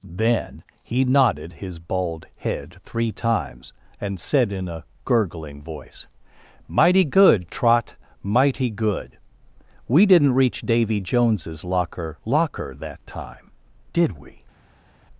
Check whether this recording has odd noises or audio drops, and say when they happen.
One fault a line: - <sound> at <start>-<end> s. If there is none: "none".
none